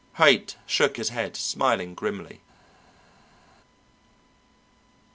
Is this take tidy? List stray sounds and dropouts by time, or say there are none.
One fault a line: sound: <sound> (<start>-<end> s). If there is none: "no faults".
no faults